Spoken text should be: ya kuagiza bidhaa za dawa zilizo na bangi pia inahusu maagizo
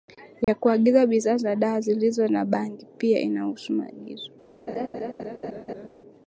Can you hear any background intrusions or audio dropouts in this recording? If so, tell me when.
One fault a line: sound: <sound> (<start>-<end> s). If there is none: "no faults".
sound: dropout (0.4-0.5 s)
sound: laugh (4.7-5.9 s)